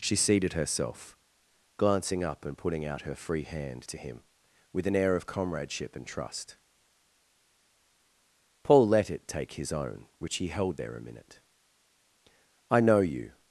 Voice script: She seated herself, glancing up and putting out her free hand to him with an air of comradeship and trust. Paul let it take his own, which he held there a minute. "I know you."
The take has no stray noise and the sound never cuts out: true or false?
true